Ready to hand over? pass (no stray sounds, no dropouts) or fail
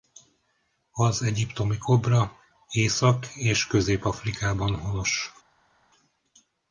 pass